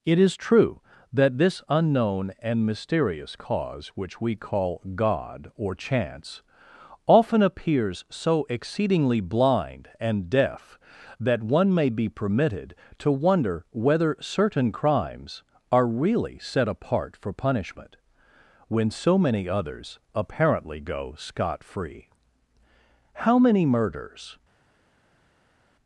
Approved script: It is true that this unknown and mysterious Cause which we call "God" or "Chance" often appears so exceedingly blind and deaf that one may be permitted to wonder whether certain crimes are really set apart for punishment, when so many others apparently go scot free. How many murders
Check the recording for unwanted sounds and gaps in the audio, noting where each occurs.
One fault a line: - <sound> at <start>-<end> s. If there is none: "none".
none